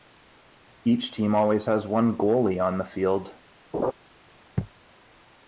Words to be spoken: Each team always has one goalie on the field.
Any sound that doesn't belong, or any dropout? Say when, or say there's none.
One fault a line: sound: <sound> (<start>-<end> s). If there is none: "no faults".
sound: laugh (3.7-3.9 s)